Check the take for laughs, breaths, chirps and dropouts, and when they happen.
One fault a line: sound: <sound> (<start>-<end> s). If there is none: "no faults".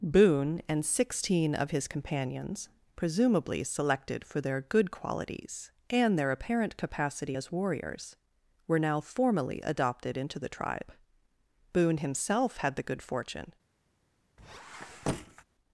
sound: squeak (14.4-15.4 s)